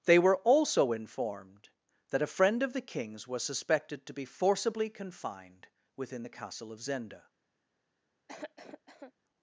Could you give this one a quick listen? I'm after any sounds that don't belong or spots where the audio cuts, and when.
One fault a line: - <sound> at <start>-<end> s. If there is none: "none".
- cough at 8.3-9.1 s